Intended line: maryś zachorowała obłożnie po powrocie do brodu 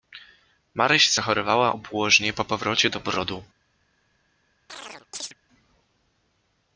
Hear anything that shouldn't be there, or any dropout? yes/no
yes